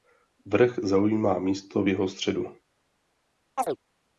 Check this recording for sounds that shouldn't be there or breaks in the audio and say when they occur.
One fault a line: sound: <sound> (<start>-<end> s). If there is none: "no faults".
sound: chirp (3.6-3.8 s)